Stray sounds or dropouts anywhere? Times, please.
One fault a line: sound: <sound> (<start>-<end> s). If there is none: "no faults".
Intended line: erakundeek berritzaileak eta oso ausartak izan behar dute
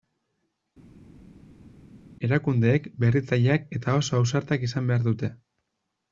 no faults